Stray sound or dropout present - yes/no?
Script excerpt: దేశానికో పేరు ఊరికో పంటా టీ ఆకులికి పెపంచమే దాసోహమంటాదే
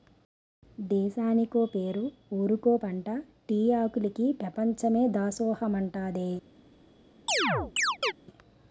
yes